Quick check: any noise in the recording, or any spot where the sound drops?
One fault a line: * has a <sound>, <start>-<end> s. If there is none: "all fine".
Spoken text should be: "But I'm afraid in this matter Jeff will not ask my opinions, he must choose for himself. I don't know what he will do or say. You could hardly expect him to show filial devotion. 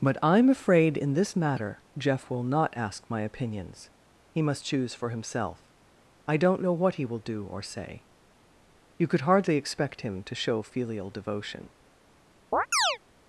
* has a chirp, 12.5-13.0 s